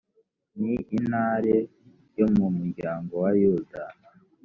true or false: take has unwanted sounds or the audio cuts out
false